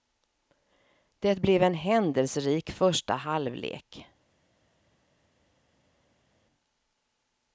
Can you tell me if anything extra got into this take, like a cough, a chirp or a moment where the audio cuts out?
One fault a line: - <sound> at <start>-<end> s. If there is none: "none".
none